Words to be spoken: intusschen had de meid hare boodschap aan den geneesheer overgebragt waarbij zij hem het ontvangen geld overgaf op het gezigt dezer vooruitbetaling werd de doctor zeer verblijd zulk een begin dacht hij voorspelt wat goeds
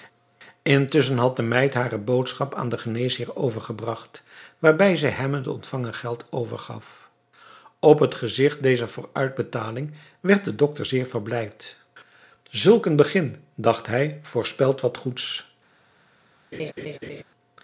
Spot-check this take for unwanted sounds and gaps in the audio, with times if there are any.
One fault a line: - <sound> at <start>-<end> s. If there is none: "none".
- laugh at 16.5-17.2 s